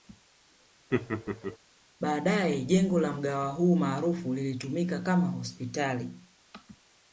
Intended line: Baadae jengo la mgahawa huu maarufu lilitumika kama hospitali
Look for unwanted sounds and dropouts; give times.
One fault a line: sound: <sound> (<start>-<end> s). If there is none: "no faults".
sound: laugh (0.9-1.6 s)